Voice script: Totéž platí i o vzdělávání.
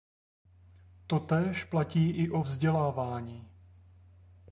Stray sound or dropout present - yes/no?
no